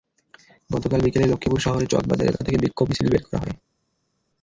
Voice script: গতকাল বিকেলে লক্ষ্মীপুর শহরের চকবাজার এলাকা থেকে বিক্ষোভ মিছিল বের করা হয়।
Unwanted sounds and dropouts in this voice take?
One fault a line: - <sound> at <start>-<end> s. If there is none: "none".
none